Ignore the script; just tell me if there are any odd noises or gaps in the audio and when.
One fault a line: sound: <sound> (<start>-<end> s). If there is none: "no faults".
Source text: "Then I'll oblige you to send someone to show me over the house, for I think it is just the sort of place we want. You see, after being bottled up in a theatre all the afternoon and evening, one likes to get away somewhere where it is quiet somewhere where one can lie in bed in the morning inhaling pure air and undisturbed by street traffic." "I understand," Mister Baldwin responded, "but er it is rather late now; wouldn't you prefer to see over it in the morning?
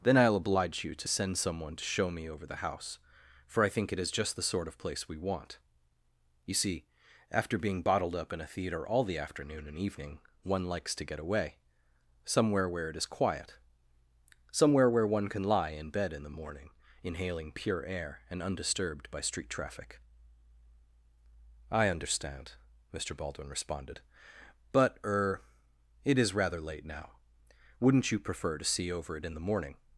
no faults